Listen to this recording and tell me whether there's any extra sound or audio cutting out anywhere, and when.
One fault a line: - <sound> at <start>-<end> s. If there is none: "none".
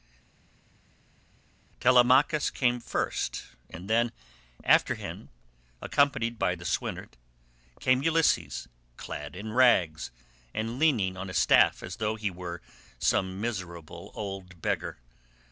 none